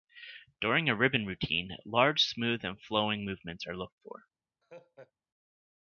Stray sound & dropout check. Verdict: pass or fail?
fail